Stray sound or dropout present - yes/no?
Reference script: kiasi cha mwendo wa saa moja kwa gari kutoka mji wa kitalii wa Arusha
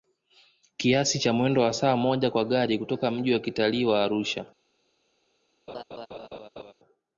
yes